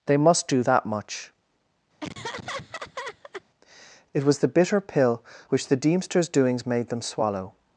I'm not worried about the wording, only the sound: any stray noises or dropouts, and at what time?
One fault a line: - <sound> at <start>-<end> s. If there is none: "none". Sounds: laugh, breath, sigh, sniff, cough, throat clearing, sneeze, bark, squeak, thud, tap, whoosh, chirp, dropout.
- laugh at 2.0-3.4 s